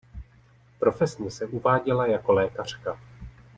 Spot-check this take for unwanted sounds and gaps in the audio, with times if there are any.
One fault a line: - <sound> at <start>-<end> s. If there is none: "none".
none